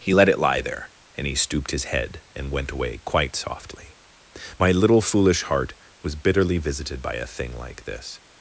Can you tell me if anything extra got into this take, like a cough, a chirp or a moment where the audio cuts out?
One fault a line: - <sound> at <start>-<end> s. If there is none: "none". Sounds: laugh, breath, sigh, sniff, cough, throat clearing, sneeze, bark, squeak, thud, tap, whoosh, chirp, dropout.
none